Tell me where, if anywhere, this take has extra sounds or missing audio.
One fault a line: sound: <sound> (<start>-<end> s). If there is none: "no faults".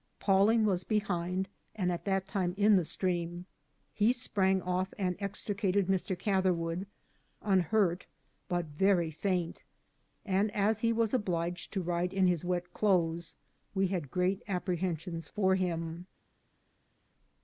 no faults